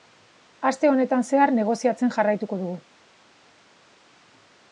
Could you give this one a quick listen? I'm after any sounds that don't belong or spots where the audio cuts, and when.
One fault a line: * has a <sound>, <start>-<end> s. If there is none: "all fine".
all fine